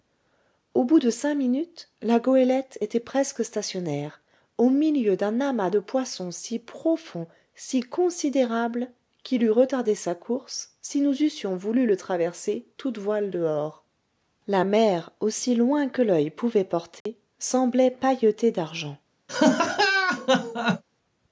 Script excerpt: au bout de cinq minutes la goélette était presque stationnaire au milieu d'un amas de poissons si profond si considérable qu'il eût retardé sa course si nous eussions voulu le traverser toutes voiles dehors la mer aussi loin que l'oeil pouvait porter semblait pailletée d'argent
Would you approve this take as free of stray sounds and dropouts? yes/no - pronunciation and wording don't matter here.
no